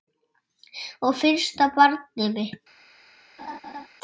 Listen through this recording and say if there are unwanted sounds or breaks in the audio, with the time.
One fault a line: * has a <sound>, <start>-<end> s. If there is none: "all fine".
* has a laugh, 3.4-3.9 s